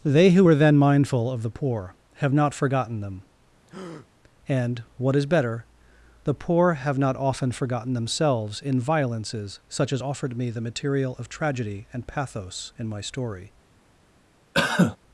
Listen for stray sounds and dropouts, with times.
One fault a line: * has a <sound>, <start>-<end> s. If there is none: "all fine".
* has a breath, 3.7-4.1 s
* has a cough, 14.5-15.0 s